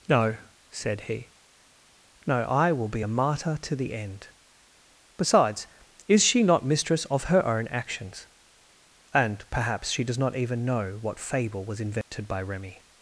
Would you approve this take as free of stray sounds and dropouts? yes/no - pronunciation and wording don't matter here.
no